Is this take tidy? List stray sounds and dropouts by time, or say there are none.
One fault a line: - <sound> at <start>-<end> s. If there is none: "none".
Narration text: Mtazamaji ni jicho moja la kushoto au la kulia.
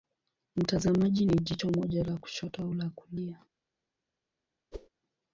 - whoosh at 4.7-4.9 s